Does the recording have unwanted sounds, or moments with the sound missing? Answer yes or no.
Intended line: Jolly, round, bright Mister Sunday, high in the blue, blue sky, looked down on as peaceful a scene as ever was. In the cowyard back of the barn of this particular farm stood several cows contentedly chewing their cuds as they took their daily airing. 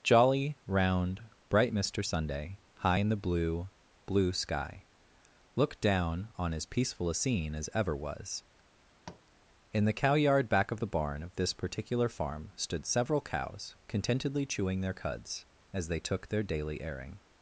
yes